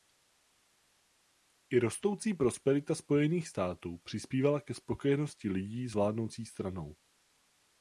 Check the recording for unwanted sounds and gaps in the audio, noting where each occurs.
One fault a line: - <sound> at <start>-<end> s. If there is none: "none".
none